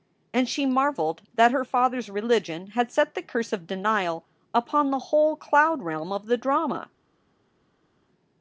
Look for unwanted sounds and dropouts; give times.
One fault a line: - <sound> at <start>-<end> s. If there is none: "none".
none